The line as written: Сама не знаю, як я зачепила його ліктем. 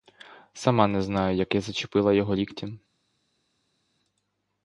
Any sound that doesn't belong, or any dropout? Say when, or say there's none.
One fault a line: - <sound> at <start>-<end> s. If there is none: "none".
none